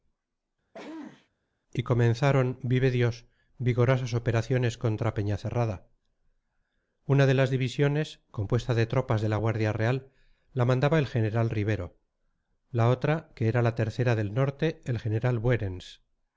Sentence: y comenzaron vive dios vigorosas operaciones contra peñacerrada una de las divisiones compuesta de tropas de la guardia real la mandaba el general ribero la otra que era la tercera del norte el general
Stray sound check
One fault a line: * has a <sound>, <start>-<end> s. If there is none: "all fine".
* has a sneeze, 0.7-1.3 s